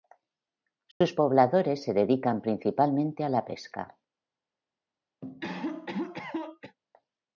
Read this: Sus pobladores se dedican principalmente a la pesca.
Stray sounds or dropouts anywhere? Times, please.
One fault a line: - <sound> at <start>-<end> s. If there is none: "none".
- dropout at 0.9-1.0 s
- cough at 5.2-6.8 s